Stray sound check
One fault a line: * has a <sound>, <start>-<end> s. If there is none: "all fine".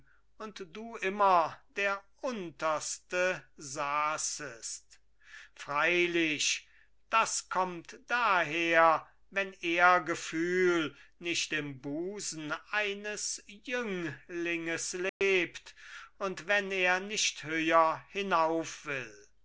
* has a dropout, 15.1-15.2 s